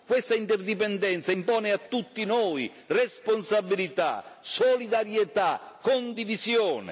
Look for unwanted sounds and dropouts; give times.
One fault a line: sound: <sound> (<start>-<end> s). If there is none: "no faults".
no faults